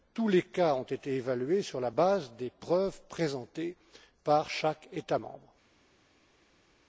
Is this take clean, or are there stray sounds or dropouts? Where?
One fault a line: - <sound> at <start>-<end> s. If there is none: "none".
none